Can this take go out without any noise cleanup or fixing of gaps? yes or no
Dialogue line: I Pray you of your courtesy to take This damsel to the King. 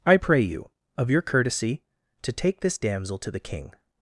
yes